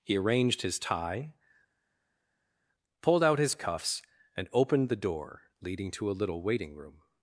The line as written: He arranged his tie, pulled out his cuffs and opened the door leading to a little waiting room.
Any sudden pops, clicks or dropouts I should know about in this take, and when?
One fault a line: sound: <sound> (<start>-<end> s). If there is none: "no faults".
no faults